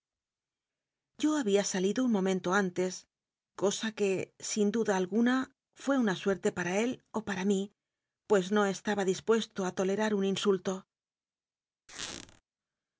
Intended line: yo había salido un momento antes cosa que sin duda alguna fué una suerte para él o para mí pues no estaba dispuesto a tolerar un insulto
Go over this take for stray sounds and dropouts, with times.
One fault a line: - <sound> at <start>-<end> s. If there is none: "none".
- squeak at 11.9-12.4 s